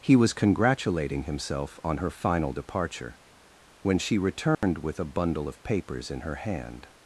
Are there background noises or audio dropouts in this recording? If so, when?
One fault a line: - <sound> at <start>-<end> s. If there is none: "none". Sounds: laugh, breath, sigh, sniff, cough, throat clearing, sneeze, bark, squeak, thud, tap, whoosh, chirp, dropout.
- dropout at 4.5-4.6 s